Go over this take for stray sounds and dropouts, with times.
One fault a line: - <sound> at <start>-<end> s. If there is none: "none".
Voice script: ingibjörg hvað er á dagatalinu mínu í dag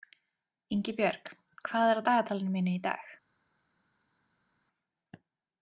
none